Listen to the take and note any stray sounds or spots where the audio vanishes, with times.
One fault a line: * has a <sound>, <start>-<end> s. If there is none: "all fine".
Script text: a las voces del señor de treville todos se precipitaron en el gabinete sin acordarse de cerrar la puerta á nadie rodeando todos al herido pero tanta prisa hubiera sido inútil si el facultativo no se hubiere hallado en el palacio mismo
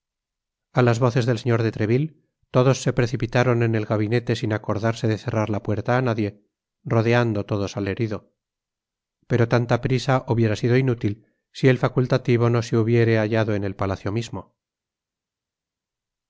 all fine